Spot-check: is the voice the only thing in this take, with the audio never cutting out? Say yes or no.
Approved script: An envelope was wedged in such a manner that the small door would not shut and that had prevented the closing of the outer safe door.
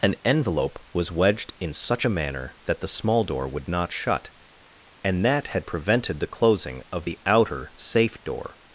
yes